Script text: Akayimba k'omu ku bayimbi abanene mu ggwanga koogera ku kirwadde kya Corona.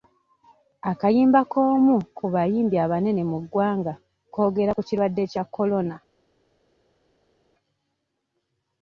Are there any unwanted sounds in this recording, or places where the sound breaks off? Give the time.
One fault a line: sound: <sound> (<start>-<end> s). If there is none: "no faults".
no faults